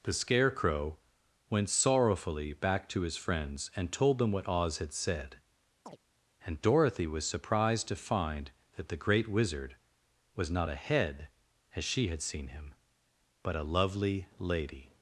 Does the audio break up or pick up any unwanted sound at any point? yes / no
yes